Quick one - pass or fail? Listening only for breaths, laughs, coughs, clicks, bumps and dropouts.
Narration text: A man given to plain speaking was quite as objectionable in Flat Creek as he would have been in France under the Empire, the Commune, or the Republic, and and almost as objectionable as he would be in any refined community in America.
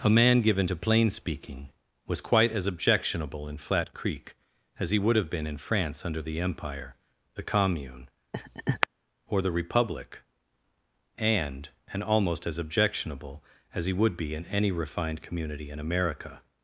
fail